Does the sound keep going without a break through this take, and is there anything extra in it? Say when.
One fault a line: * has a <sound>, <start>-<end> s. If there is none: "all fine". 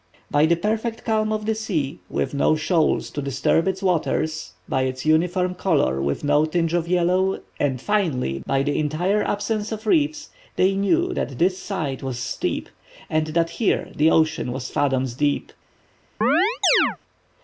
* has a chirp, 16.2-17.0 s